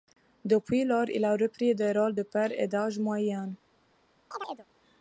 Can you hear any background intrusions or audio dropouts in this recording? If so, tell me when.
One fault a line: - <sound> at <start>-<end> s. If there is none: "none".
- chirp at 4.3-4.7 s